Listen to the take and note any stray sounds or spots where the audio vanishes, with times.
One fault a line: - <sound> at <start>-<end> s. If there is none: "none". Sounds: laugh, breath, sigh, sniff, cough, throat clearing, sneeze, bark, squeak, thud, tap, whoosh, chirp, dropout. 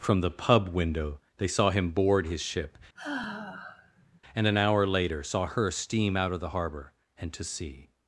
- sigh at 3.0-4.2 s